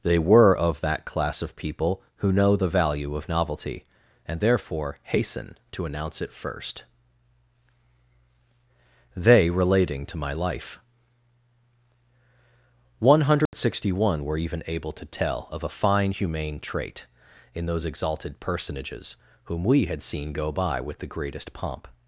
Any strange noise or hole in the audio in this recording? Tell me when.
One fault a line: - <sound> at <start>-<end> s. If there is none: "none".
- dropout at 13.5-13.5 s